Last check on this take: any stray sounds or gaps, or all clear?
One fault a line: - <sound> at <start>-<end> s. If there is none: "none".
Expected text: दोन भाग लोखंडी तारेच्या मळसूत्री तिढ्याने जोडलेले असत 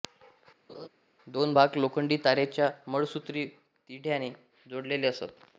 - laugh at 0.7-0.9 s